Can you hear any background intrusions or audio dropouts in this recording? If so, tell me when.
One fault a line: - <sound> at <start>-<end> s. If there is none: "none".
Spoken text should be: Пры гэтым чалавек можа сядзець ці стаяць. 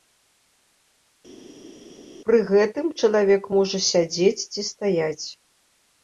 none